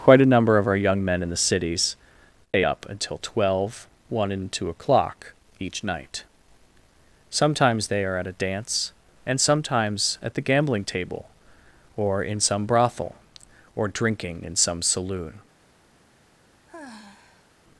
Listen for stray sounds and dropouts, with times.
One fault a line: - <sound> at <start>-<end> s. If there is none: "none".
- sigh at 16.7-17.5 s